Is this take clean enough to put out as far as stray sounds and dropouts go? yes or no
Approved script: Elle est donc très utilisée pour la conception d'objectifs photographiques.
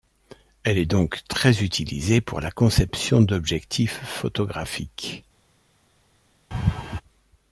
no